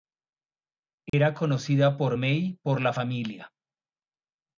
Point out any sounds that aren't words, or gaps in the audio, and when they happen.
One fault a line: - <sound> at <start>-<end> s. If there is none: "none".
- dropout at 1.1-1.1 s